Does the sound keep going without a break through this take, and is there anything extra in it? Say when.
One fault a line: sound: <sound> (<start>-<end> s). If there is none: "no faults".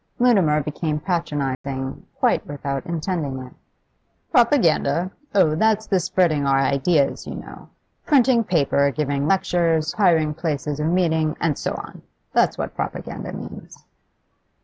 sound: dropout (1.5-1.6 s)